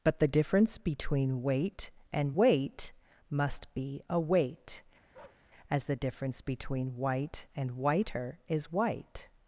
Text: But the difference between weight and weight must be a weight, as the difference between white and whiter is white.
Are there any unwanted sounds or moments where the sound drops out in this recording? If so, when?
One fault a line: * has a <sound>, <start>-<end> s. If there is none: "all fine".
* has a bark, 5.1-5.5 s